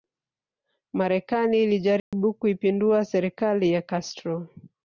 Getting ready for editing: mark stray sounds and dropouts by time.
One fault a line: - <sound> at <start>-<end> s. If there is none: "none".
- dropout at 2.0-2.1 s